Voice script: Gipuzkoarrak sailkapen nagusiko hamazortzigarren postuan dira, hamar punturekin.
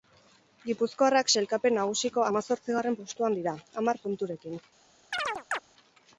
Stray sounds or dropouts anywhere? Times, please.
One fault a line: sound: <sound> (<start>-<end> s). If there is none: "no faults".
sound: chirp (5.1-5.6 s)